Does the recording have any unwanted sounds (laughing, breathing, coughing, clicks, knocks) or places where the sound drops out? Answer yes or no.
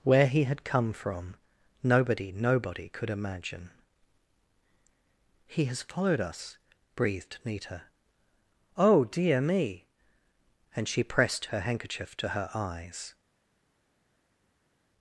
no